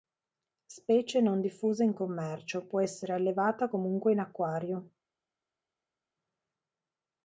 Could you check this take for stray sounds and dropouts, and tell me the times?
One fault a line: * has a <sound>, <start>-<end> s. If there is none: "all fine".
all fine